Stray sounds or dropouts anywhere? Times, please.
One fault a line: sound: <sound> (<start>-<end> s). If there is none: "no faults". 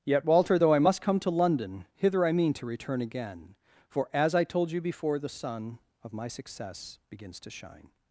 no faults